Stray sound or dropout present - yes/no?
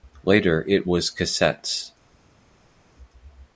no